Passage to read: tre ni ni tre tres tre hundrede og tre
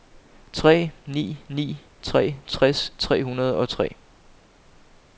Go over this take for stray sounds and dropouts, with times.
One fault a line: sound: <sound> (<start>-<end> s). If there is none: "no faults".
no faults